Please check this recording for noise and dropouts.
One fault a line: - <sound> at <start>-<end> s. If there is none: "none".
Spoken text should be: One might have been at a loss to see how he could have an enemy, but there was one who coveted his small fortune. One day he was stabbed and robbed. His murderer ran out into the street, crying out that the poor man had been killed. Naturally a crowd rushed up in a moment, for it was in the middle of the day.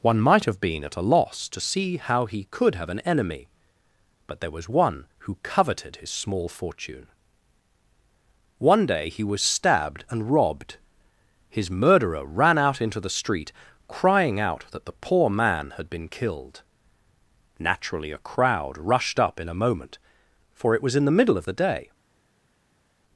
none